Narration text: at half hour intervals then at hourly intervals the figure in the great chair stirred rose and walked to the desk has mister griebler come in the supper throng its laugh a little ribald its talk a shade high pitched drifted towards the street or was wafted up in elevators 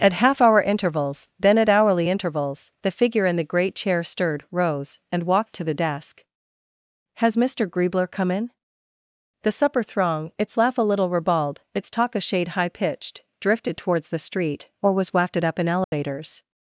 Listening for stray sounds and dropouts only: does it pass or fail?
fail